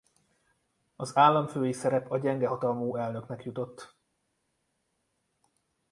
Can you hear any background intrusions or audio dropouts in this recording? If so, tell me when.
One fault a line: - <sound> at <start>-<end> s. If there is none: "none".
none